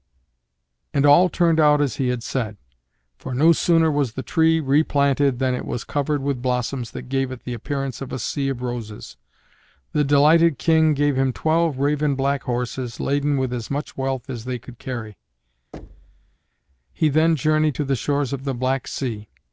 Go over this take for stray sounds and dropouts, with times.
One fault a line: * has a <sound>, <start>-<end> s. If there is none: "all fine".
* has a thud, 15.7-16.4 s